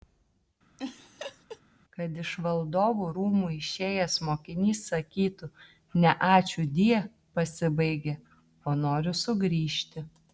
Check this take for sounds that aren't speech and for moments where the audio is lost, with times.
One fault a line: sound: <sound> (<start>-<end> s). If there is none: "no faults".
sound: laugh (0.8-1.6 s)